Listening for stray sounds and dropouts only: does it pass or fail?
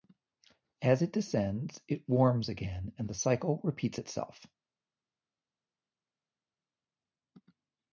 pass